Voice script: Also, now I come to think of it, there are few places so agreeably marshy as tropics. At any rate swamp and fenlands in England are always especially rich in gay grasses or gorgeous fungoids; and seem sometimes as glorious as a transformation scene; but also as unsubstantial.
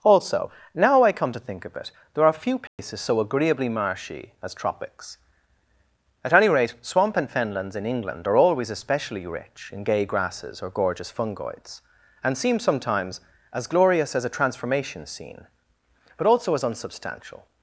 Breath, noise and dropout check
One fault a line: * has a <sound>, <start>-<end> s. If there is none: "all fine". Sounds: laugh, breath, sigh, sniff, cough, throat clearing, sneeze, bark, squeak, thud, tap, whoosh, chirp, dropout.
* has a dropout, 2.7-2.8 s